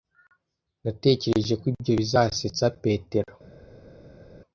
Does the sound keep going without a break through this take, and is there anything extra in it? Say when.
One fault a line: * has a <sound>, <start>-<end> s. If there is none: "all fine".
all fine